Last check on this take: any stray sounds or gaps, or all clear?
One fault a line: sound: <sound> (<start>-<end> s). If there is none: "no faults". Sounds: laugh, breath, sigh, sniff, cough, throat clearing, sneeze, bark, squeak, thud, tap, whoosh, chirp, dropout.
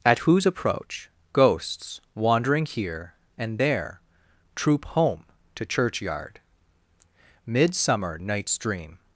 no faults